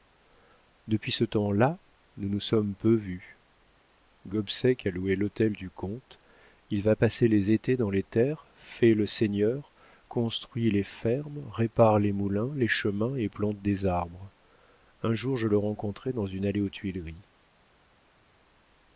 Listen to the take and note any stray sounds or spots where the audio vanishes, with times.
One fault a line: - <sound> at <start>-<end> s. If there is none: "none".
none